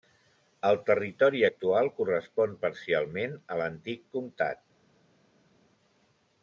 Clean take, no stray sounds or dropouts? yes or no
yes